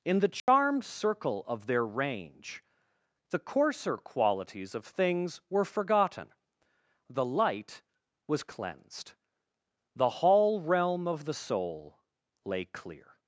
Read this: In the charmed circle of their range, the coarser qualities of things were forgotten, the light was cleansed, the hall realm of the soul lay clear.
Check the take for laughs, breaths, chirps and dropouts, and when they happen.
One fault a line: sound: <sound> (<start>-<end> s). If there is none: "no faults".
sound: dropout (0.4-0.5 s)